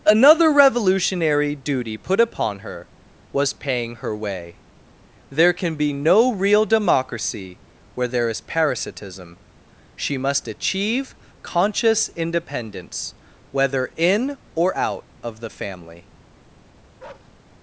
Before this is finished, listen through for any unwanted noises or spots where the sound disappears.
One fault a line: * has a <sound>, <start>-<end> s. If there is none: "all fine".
* has a bark, 17.0-17.3 s